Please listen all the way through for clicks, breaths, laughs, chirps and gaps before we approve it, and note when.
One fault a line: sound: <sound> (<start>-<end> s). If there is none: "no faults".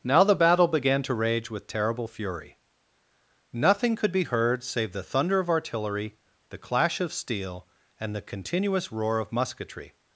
no faults